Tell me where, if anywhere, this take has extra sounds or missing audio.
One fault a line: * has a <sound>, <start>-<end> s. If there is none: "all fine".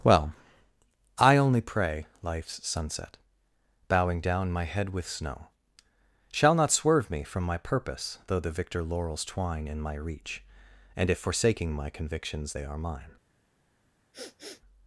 * has a sniff, 14.1-14.6 s